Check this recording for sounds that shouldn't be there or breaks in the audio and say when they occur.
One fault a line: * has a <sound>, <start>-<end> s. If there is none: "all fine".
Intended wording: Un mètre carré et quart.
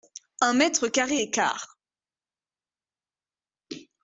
all fine